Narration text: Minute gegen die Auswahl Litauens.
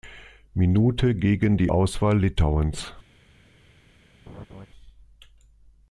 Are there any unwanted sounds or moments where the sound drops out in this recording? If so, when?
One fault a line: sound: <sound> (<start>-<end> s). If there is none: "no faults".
sound: laugh (4.3-4.7 s)